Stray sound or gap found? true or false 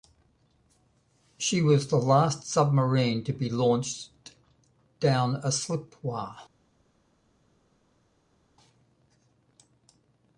false